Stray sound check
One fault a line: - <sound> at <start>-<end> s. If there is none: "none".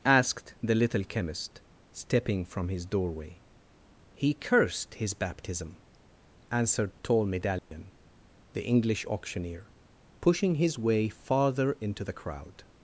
- dropout at 7.6-7.7 s